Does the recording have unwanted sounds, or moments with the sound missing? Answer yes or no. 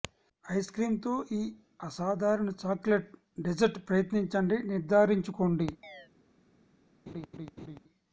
yes